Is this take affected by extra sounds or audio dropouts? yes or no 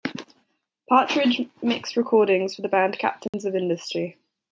yes